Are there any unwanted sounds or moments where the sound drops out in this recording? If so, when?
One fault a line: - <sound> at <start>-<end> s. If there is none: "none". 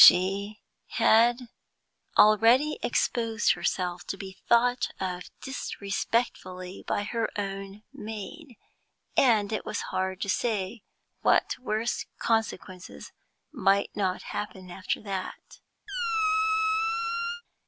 - squeak at 15.9-17.4 s